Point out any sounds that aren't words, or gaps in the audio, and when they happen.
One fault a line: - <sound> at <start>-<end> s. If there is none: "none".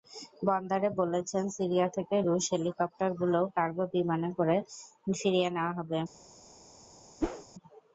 - whoosh at 7.2-7.5 s